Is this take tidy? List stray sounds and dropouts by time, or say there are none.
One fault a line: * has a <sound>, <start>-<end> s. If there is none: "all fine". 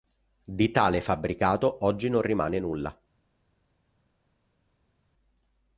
all fine